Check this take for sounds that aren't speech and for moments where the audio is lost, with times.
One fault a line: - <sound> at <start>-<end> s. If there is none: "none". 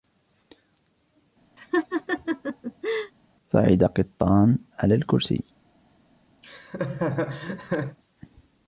- laugh at 1.6-3.1 s
- laugh at 6.4-8.0 s